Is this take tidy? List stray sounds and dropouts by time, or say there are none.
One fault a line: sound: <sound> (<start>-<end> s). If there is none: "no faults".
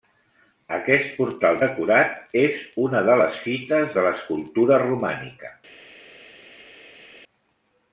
no faults